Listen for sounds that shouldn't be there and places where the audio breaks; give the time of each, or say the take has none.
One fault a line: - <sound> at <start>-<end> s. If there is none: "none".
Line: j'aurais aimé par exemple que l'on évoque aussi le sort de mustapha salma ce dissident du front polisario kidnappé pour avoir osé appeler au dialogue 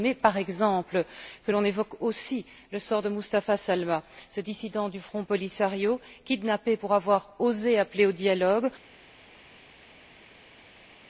none